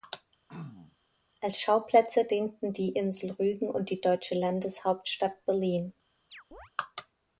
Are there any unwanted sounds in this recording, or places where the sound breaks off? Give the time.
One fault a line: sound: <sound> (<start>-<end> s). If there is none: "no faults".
sound: throat clearing (0.5-1.0 s)
sound: chirp (6.3-6.7 s)